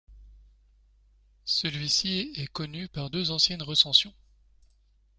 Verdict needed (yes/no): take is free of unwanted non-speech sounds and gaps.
yes